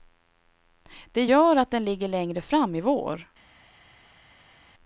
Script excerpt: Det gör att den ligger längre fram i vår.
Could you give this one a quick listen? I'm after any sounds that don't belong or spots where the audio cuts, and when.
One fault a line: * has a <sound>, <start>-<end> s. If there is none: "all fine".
all fine